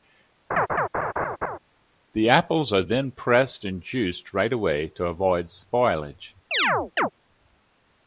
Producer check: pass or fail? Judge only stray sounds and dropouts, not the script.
fail